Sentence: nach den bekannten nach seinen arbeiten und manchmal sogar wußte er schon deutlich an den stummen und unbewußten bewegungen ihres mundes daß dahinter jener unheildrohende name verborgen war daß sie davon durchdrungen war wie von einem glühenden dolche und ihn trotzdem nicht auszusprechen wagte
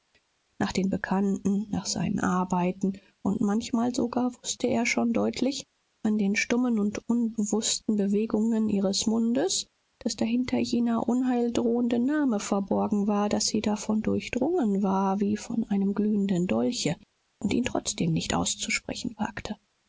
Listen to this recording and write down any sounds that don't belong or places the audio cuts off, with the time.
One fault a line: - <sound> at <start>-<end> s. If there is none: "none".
none